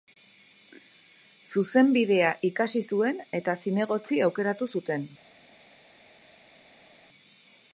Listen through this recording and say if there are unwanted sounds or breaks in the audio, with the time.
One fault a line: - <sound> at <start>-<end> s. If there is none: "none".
none